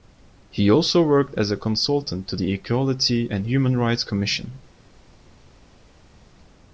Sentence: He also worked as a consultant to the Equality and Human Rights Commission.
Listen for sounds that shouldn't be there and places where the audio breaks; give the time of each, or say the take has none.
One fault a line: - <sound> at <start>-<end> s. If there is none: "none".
none